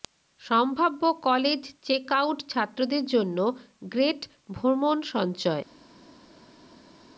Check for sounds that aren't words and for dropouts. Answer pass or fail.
pass